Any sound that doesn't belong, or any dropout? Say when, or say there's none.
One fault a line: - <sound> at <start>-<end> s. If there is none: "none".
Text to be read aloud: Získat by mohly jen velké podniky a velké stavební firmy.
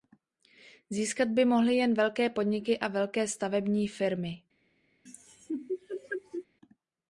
- laugh at 5.1-6.5 s